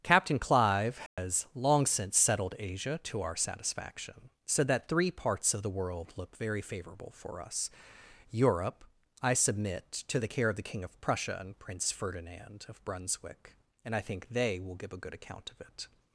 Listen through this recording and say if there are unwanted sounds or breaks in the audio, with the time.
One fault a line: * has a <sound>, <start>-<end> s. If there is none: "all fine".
* has a dropout, 1.1-1.2 s